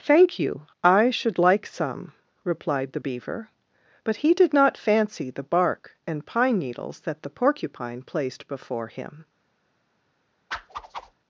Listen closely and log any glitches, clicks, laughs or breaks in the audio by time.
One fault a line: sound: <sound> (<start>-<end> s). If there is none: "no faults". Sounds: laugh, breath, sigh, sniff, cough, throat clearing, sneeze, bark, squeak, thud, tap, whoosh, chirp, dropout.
sound: whoosh (10.5-11.1 s)